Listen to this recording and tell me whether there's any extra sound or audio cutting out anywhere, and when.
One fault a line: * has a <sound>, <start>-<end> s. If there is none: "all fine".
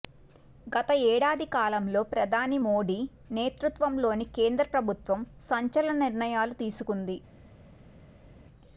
all fine